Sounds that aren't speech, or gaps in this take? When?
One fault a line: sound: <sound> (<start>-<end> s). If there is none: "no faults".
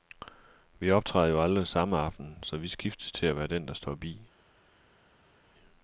no faults